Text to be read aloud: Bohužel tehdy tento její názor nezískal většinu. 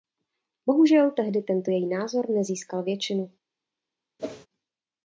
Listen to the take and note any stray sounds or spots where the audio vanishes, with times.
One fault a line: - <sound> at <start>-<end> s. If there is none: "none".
- whoosh at 4.2-4.5 s